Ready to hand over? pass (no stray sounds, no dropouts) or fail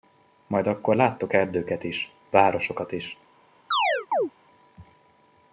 fail